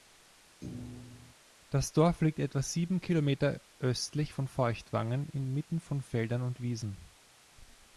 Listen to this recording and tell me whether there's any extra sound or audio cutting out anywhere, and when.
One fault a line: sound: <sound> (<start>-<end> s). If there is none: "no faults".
sound: thud (0.6-1.3 s)